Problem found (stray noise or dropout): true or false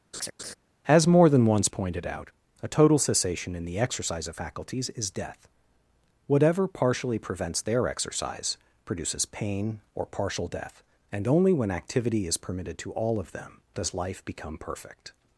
true